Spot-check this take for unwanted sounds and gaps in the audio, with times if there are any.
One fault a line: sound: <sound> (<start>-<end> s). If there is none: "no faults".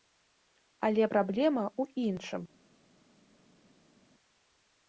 no faults